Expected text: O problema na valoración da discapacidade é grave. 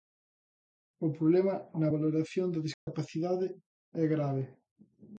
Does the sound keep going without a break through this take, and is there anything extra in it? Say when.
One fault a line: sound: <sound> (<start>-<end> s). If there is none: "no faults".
sound: dropout (2.7-2.9 s)